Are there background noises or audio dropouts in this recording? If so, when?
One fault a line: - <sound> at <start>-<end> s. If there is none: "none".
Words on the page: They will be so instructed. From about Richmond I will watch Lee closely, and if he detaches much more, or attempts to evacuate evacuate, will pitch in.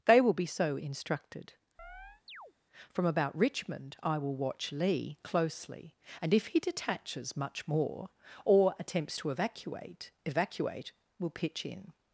- chirp at 1.8-2.5 s